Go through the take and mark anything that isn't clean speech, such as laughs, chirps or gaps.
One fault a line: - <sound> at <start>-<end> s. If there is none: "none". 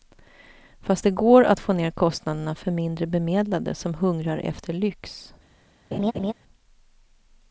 - laugh at 5.9-6.3 s